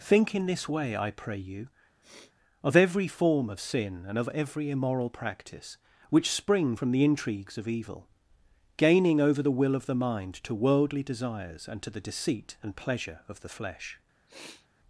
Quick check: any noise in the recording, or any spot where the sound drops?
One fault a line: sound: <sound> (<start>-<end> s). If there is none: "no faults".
sound: sniff (2.0-2.3 s)
sound: sniff (14.3-14.7 s)